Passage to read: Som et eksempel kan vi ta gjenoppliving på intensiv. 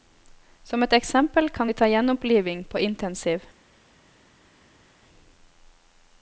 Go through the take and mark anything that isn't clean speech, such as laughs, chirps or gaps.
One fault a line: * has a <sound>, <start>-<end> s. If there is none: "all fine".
all fine